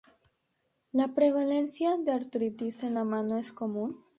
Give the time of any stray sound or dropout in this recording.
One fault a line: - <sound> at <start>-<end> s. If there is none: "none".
none